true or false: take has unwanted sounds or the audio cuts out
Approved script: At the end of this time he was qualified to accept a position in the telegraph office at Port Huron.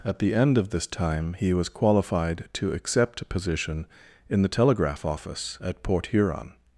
false